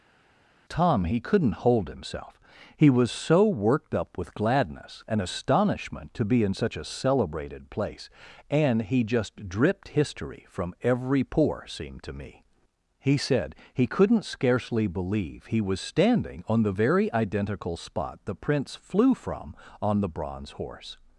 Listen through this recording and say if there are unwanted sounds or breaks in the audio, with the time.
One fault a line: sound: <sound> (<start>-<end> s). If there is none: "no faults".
no faults